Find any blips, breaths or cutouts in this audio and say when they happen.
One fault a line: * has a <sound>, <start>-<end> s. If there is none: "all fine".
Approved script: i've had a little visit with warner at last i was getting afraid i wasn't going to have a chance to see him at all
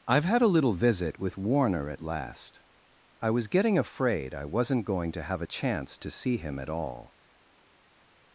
all fine